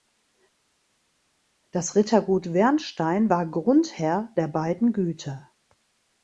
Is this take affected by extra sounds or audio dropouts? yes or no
no